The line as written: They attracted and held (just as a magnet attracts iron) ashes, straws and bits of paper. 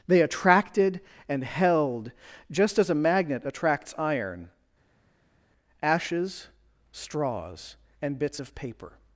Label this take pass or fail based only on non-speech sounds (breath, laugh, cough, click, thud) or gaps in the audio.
pass